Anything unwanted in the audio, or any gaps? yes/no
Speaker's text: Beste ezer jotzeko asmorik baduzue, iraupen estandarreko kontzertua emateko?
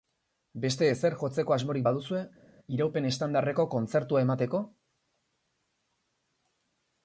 no